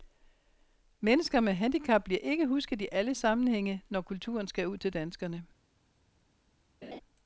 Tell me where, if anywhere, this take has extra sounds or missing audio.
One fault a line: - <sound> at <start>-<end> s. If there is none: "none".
- laugh at 6.8-7.0 s